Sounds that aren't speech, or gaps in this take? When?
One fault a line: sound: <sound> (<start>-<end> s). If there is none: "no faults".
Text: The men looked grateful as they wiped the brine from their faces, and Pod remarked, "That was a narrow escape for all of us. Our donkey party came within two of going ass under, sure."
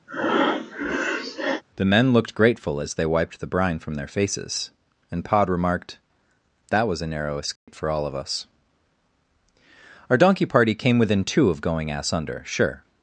sound: breath (0.1-1.6 s)
sound: dropout (7.6-7.7 s)